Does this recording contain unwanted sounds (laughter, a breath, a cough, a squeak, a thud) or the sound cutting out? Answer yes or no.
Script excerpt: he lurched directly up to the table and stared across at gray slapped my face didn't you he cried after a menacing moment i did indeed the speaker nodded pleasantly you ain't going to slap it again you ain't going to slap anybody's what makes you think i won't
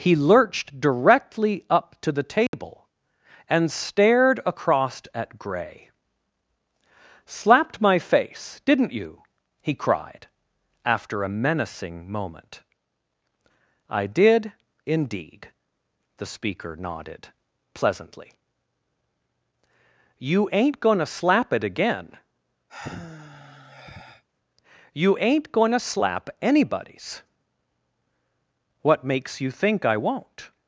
yes